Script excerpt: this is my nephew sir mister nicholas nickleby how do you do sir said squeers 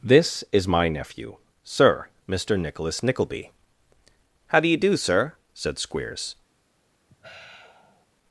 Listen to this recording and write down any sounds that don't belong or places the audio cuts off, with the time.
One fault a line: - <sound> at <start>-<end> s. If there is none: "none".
- sigh at 7.1-8.1 s